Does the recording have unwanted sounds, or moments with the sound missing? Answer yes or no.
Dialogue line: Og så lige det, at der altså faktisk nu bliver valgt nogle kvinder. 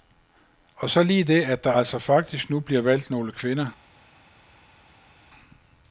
no